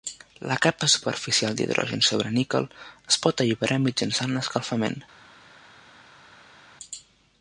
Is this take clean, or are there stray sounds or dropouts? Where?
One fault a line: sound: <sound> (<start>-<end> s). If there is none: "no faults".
no faults